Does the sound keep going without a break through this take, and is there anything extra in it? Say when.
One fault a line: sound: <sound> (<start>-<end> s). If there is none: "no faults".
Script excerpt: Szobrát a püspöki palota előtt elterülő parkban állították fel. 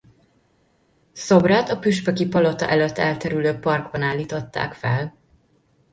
no faults